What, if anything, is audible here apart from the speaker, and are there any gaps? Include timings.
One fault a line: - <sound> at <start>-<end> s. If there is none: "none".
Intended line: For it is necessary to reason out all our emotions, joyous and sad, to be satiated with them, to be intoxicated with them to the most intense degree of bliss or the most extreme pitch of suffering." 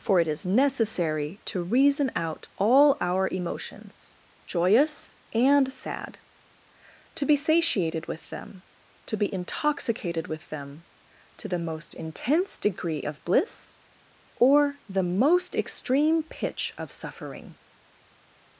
none